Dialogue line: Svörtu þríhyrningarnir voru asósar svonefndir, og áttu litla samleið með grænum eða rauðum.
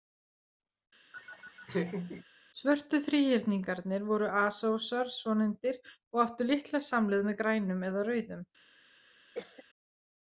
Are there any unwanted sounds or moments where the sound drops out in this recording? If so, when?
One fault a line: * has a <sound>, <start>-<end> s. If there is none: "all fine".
* has a laugh, 1.1-2.2 s
* has a cough, 9.3-9.6 s